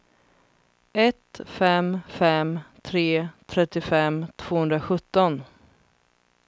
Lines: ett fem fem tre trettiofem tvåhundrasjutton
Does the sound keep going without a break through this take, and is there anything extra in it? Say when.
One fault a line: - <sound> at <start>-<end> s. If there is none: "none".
none